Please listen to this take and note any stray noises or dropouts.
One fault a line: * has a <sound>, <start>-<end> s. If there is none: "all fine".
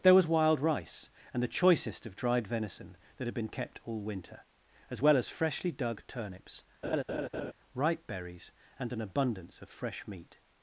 * has a laugh, 6.8-7.5 s